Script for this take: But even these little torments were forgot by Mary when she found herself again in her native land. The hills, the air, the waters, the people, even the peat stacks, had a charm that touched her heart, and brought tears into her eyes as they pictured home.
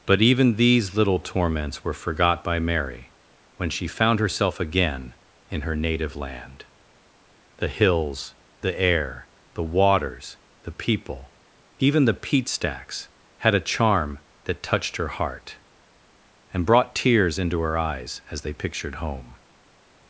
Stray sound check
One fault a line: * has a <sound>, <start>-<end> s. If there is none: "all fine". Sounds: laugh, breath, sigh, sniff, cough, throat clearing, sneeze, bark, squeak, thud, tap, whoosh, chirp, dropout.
all fine